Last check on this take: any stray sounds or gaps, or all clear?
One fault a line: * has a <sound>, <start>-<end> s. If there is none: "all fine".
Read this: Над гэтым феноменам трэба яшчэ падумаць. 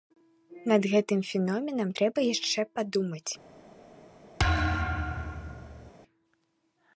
* has a thud, 4.4-5.9 s